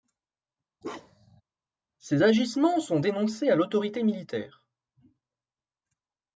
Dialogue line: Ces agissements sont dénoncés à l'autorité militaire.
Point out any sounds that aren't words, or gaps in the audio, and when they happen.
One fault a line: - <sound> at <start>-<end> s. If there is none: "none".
- bark at 0.8-1.4 s